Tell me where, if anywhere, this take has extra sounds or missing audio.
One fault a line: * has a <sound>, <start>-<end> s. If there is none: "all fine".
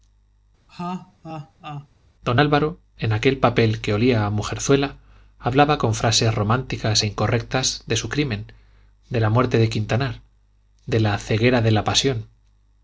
* has a laugh, 0.7-1.9 s